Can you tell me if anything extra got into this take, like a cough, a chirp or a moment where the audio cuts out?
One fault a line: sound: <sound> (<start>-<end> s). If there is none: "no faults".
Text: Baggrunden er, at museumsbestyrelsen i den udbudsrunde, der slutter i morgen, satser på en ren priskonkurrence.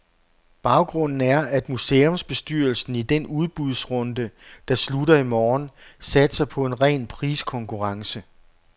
no faults